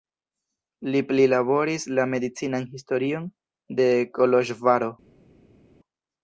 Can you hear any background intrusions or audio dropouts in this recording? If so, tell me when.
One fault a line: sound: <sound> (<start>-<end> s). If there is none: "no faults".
no faults